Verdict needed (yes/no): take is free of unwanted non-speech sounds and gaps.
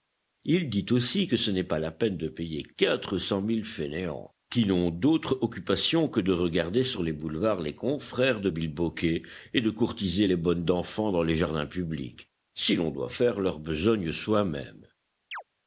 no